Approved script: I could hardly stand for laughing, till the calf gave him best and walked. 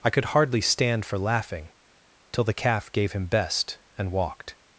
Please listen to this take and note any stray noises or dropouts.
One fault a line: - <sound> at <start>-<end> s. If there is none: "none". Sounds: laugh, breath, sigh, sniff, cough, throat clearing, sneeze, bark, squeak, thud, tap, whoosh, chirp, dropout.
none